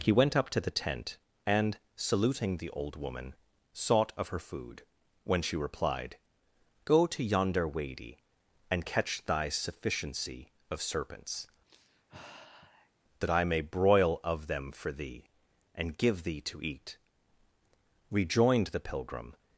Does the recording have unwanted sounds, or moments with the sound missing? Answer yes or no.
yes